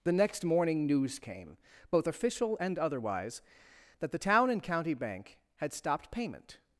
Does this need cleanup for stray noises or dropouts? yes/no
no